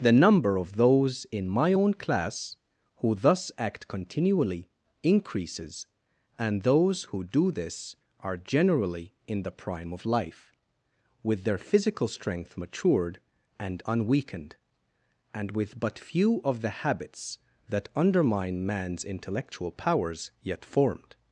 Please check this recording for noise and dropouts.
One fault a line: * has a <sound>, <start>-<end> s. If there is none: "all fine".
all fine